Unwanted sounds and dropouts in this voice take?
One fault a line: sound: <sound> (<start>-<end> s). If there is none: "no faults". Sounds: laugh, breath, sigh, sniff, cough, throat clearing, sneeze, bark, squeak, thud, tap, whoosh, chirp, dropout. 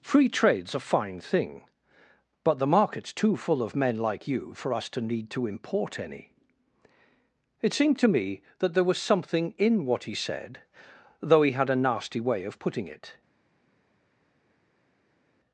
no faults